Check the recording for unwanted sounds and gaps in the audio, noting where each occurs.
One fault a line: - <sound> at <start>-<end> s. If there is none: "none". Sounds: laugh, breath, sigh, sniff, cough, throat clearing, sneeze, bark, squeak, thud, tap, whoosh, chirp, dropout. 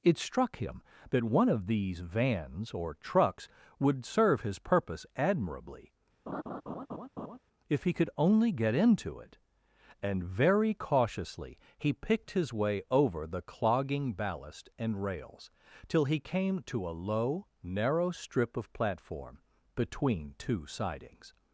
- laugh at 6.3-7.4 s